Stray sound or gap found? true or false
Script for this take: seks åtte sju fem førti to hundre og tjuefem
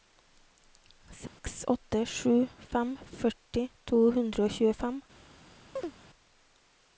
true